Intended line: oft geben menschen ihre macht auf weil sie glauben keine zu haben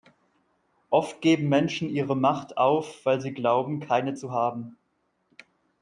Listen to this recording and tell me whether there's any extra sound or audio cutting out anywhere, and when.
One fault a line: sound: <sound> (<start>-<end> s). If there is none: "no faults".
no faults